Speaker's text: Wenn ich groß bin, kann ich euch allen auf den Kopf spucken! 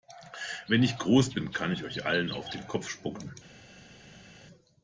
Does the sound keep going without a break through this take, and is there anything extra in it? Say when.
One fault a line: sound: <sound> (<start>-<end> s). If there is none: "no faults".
no faults